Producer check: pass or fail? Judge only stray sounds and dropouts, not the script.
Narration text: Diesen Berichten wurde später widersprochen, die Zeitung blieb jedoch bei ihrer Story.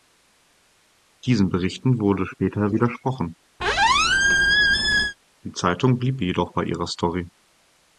fail